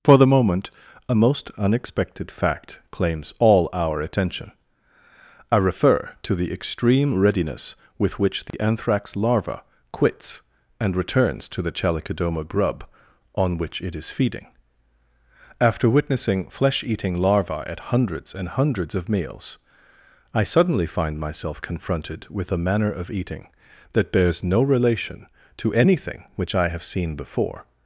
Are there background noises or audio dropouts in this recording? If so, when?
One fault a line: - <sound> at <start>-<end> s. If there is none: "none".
- dropout at 8.5-8.5 s